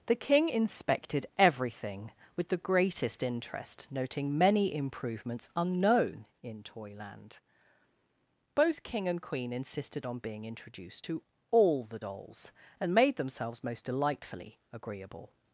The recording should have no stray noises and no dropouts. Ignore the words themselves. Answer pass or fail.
pass